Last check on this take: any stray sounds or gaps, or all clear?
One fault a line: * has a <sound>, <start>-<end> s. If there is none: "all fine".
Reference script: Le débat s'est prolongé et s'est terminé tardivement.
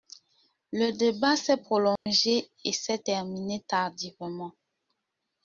* has a dropout, 2.0-2.1 s